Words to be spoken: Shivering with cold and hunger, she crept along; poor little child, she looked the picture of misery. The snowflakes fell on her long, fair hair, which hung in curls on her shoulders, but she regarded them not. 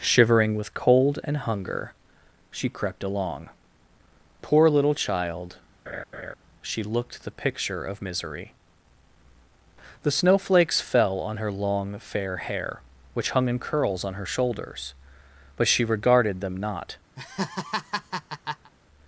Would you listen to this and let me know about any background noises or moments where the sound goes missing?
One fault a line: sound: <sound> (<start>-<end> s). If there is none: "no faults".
sound: laugh (5.9-6.3 s)
sound: laugh (17.2-18.7 s)